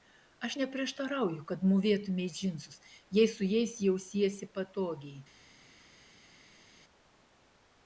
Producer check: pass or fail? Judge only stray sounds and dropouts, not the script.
pass